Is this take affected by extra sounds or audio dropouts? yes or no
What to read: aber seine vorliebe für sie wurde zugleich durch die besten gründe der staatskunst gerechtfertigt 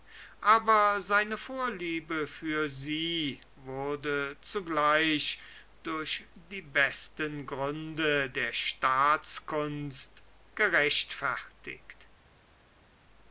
no